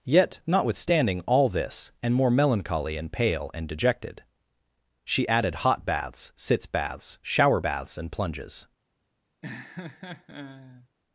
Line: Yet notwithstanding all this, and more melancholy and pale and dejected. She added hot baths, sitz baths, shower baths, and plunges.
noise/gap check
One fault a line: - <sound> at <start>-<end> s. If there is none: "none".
- laugh at 9.4-10.9 s